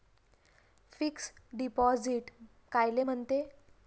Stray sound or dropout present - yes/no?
no